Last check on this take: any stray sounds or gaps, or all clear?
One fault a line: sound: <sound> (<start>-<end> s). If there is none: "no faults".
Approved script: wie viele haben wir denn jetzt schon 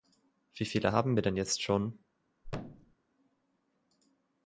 sound: thud (2.4-3.0 s)